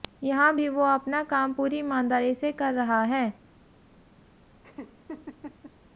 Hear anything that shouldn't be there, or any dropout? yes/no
yes